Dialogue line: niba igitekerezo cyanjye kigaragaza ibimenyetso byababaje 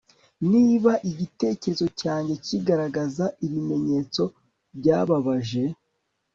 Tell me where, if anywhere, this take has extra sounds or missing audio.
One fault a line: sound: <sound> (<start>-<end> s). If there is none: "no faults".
no faults